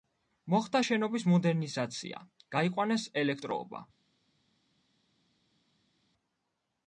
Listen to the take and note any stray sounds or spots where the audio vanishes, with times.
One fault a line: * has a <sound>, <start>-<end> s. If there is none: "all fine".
all fine